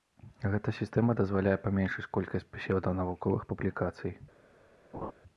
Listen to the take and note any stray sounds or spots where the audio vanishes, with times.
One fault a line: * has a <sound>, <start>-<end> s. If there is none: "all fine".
* has a laugh, 4.9-5.1 s